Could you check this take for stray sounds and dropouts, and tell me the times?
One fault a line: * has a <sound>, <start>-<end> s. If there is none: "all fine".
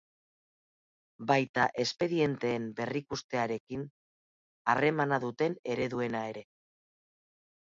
all fine